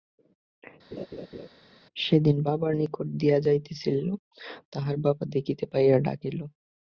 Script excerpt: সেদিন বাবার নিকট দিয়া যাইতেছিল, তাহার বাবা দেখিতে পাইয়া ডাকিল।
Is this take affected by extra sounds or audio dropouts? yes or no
yes